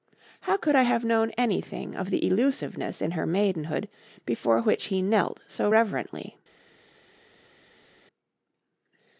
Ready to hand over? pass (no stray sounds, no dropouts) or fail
pass